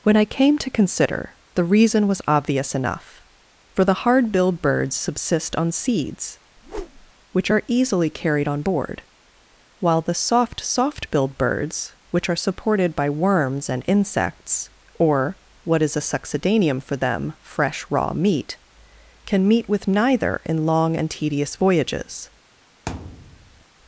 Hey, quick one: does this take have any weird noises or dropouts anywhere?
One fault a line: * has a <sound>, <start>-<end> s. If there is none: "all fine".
* has a whoosh, 6.6-7.1 s
* has a thud, 22.9-23.6 s